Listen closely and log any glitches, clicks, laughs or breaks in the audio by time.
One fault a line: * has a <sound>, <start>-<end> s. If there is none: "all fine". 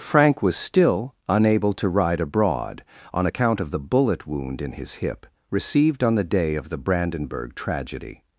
all fine